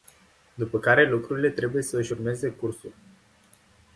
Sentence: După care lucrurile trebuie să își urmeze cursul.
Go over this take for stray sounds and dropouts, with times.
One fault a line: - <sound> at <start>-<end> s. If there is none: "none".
none